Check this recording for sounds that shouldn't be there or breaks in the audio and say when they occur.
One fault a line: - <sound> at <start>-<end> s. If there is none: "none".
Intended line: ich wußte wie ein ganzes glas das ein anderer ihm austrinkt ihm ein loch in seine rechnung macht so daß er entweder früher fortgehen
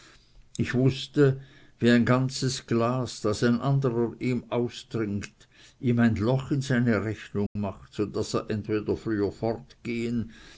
- dropout at 7.5-7.6 s